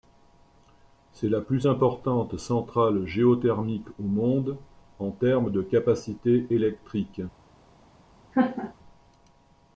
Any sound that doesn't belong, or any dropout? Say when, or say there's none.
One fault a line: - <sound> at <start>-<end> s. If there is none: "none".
- laugh at 8.3-8.7 s